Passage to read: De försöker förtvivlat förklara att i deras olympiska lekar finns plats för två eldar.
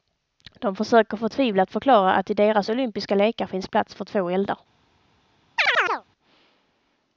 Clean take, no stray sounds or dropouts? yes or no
no